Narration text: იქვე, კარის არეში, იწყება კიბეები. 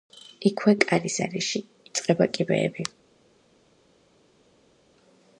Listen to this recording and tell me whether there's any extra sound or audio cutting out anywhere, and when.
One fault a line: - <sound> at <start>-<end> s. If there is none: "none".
none